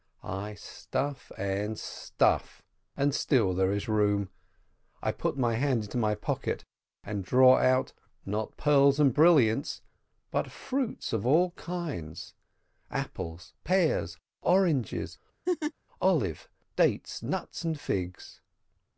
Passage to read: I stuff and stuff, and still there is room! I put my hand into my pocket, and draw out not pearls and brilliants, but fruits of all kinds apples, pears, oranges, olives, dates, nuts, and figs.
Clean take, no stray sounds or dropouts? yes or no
no